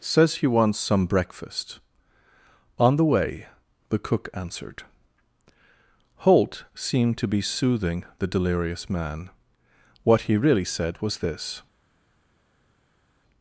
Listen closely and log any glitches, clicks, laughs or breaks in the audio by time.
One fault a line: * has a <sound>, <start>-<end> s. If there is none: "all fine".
all fine